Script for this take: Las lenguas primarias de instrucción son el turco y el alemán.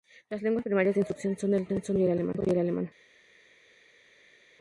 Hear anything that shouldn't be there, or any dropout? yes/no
no